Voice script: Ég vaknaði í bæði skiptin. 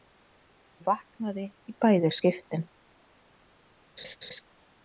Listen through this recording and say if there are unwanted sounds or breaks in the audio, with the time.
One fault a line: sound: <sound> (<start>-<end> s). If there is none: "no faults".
sound: laugh (4.0-4.4 s)